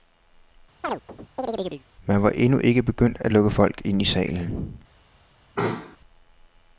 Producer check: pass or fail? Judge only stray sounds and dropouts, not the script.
fail